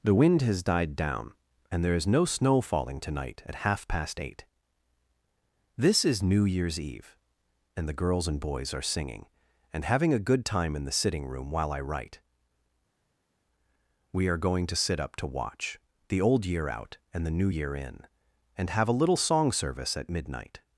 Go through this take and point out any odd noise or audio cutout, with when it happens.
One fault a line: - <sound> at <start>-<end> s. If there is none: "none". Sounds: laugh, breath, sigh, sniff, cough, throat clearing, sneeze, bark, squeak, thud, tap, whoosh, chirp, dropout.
none